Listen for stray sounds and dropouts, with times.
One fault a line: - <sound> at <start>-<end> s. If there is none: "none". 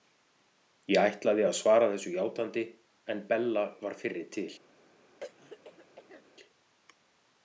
- throat clearing at 5.2-6.2 s